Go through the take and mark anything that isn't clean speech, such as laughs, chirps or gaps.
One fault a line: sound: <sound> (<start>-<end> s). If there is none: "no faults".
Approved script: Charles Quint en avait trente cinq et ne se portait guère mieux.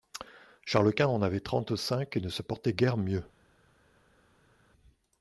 no faults